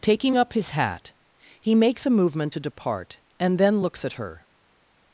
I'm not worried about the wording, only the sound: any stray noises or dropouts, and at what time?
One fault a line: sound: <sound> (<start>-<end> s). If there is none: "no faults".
no faults